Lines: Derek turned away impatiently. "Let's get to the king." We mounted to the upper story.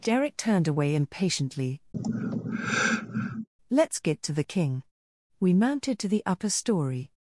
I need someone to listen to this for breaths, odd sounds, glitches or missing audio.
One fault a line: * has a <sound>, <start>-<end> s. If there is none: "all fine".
* has a sigh, 1.9-3.5 s